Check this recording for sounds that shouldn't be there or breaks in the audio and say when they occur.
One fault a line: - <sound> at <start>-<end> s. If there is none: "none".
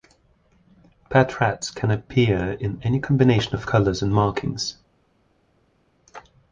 none